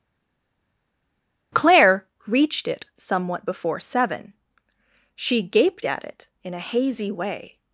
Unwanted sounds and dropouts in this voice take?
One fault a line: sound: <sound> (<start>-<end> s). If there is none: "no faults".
no faults